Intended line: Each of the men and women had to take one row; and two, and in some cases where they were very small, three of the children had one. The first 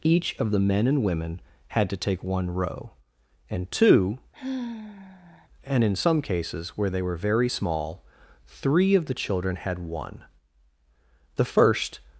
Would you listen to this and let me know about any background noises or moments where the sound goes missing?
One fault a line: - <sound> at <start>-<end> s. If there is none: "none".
- sigh at 4.3-5.5 s